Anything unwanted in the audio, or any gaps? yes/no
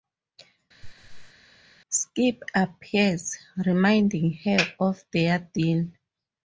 yes